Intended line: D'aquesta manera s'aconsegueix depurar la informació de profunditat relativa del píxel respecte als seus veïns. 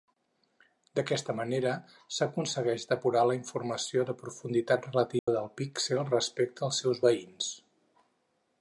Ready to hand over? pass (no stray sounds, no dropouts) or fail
fail